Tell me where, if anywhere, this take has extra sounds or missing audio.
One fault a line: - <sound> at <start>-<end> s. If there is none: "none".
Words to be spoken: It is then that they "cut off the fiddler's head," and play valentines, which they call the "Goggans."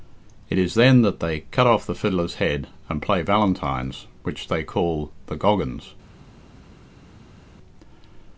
none